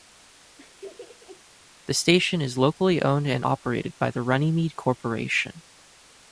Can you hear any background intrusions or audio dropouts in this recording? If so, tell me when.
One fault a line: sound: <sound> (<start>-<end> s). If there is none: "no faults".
sound: laugh (0.6-1.4 s)